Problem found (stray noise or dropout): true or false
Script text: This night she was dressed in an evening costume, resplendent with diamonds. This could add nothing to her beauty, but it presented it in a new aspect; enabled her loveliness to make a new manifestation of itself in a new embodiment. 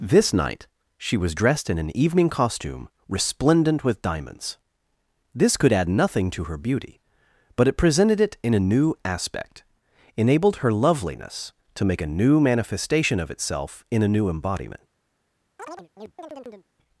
true